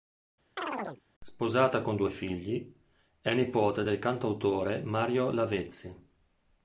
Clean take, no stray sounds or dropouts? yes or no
no